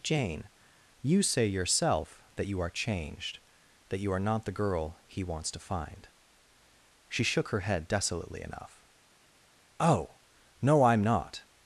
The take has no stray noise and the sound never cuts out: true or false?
true